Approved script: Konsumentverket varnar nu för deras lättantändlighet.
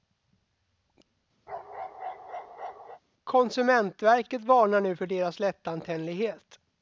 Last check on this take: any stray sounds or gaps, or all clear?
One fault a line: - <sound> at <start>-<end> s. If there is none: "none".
- bark at 1.5-3.0 s